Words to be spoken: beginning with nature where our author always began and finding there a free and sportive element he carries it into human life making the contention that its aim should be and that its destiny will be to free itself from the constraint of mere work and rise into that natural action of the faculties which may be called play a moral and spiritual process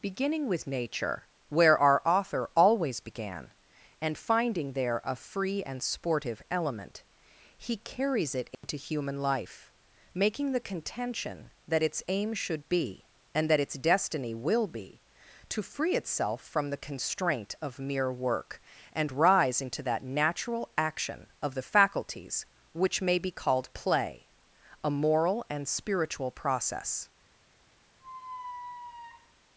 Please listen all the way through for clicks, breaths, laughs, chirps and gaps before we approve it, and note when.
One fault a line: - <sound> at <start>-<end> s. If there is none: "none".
- dropout at 8.5-8.6 s
- squeak at 28.0-29.3 s